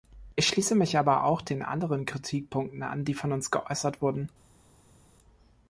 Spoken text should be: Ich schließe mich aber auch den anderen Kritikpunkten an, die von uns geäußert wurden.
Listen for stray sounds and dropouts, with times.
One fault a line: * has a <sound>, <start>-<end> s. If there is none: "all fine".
all fine